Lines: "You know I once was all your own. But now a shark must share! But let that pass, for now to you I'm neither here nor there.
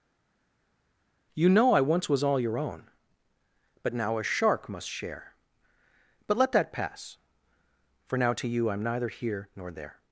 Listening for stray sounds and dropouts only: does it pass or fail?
pass